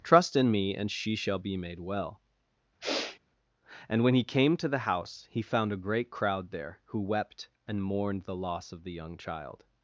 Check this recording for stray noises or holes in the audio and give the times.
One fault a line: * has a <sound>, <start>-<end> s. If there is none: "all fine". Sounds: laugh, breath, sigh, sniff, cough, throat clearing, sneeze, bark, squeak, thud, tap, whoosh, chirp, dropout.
* has a sniff, 2.8-3.2 s